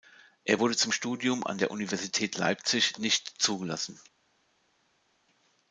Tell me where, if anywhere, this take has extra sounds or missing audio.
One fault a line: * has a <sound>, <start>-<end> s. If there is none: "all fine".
all fine